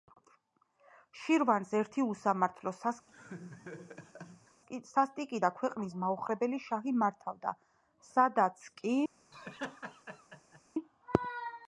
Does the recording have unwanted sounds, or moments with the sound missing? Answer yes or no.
yes